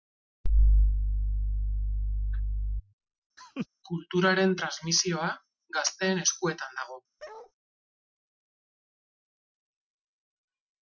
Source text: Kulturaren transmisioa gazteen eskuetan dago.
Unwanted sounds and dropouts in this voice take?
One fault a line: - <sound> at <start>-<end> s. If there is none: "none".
- laugh at 3.4-3.7 s
- bark at 7.2-7.5 s